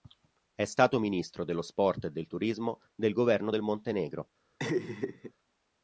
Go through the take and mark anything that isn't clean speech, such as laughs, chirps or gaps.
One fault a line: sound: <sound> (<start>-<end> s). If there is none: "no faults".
sound: laugh (4.6-5.3 s)